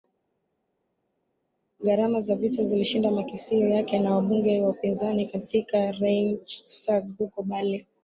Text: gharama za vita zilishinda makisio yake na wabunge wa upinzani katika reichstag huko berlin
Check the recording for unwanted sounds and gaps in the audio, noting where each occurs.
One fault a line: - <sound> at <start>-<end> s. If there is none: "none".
none